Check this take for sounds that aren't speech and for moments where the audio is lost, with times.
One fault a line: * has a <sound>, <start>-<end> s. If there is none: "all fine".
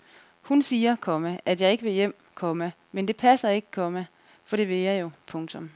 all fine